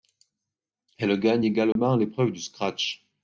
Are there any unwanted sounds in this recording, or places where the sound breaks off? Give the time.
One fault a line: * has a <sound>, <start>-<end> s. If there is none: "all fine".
* has a dropout, 1.7-1.8 s